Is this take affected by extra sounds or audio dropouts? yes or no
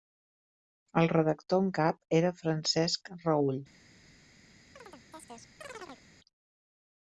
yes